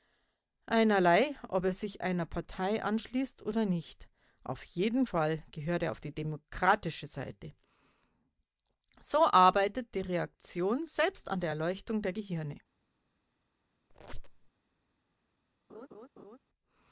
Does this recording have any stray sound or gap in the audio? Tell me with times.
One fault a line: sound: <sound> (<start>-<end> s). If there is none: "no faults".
sound: squeak (13.9-14.5 s)
sound: laugh (15.7-16.4 s)